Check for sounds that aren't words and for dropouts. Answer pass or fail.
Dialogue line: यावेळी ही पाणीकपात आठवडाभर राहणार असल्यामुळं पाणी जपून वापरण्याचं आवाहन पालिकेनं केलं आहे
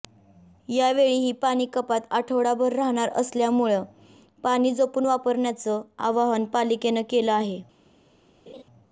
fail